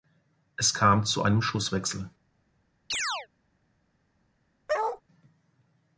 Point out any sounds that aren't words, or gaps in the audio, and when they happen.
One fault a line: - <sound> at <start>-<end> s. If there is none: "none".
- chirp at 2.9-3.3 s
- bark at 4.7-5.0 s